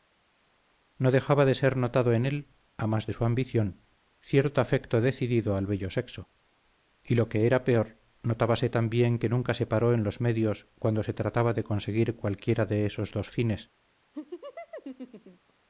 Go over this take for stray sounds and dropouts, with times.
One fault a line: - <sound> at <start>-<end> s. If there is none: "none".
- laugh at 14.1-15.5 s